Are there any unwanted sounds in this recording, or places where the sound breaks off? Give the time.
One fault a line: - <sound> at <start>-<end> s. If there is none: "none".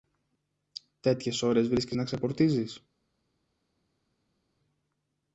none